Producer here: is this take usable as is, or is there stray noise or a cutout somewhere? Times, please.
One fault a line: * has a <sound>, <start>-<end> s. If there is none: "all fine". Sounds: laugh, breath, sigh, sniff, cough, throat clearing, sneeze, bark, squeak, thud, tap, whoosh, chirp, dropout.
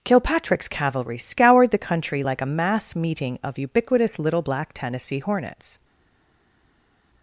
all fine